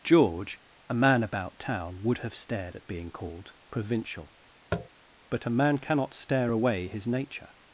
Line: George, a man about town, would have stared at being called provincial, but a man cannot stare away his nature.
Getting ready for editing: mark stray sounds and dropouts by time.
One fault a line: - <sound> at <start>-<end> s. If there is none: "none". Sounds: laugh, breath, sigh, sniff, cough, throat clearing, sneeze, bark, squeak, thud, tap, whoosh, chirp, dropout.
- tap at 4.7-4.9 s